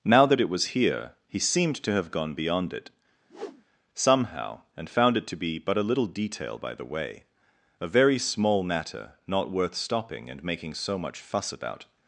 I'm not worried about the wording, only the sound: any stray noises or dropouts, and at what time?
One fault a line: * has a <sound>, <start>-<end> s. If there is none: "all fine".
* has a whoosh, 3.3-3.6 s